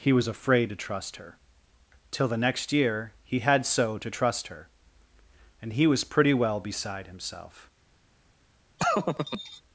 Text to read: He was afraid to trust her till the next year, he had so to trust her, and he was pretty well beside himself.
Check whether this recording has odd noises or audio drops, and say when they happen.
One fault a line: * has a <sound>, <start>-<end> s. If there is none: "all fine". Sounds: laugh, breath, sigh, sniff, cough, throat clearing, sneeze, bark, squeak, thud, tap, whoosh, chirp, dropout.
* has a laugh, 8.8-9.6 s